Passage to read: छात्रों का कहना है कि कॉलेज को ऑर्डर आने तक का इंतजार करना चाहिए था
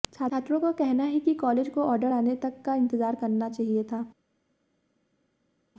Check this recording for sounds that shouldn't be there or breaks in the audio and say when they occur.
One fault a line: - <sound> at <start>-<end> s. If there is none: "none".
none